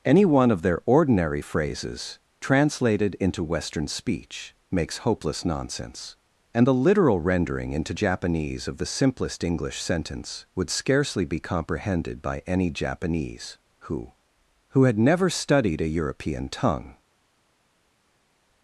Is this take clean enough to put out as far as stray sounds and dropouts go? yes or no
yes